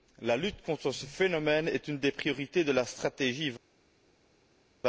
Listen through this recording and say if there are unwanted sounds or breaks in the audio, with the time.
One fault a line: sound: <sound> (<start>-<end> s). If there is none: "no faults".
no faults